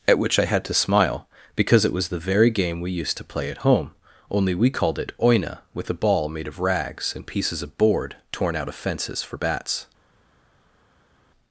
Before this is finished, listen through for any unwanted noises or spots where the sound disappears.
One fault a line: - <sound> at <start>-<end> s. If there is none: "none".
none